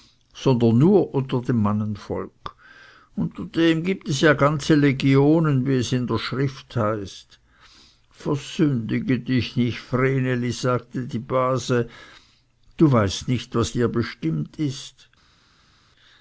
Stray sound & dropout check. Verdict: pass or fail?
pass